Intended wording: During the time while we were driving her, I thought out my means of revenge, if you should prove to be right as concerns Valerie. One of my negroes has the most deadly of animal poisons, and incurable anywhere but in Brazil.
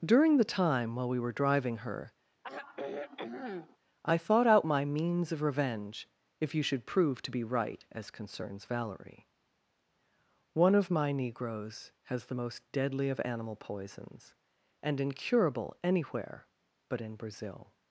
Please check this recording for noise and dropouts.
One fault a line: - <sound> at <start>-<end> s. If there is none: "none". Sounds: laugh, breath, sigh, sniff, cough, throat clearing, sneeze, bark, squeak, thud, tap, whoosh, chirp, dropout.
- sigh at 2.4-3.8 s